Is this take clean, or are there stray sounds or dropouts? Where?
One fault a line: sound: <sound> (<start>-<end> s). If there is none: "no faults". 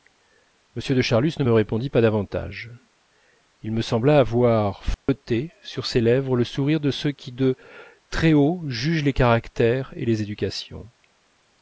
sound: dropout (4.9-5.1 s)